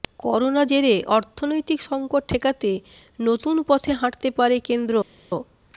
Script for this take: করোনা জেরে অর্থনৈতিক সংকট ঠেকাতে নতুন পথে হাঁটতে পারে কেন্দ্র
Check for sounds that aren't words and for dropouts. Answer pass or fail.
pass